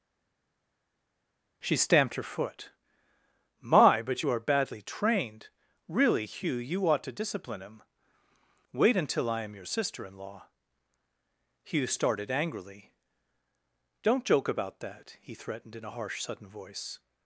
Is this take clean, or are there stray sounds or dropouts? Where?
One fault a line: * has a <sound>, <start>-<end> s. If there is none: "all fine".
all fine